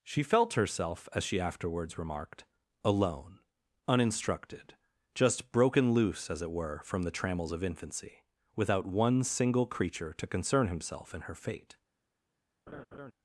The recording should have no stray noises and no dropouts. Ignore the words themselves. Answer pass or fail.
fail